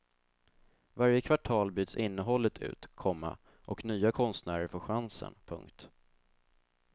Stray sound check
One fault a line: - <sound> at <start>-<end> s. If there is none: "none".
none